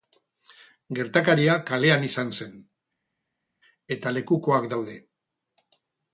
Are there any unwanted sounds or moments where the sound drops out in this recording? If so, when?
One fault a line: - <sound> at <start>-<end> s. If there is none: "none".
none